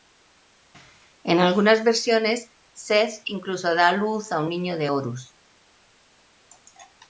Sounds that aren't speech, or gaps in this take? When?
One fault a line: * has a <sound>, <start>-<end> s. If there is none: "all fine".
all fine